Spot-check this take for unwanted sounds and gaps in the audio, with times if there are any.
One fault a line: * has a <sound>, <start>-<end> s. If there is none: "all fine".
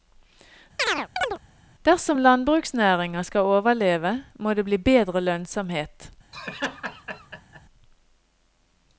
* has a chirp, 0.8-1.4 s
* has a laugh, 6.3-7.6 s